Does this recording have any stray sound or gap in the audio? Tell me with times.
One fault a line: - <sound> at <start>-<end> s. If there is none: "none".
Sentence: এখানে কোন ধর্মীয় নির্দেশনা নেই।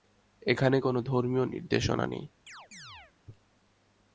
- chirp at 2.5-3.1 s